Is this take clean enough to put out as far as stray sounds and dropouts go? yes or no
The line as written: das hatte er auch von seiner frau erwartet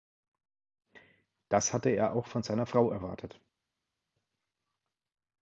yes